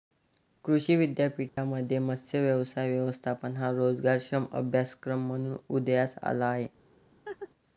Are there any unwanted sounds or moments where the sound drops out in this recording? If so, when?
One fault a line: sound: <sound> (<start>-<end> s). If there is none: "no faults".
sound: dropout (1.5-1.6 s)
sound: laugh (7.3-7.5 s)